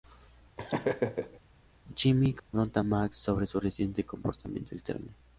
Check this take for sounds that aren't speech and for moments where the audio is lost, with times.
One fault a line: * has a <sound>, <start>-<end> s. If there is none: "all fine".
* has a laugh, 0.6-1.4 s
* has a dropout, 2.4-2.5 s